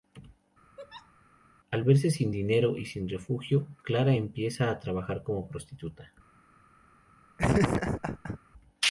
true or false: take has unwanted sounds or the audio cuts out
true